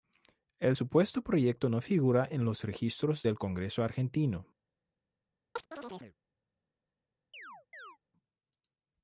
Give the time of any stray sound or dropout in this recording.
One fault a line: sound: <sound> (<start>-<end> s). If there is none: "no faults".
sound: chirp (5.6-6.2 s)
sound: chirp (7.3-8.0 s)